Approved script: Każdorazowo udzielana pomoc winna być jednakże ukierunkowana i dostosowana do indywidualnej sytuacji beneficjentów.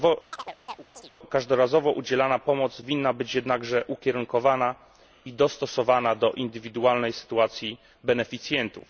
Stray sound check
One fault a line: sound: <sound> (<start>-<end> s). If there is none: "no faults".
sound: chirp (0.3-1.1 s)